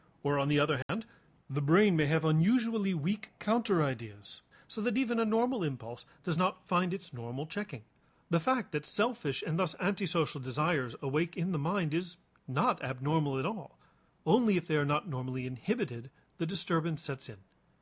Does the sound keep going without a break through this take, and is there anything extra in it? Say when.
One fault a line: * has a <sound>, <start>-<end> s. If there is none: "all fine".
* has a dropout, 0.8-0.9 s